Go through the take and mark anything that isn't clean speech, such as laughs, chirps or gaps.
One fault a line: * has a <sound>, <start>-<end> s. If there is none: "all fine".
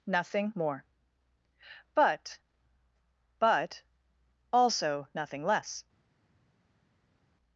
all fine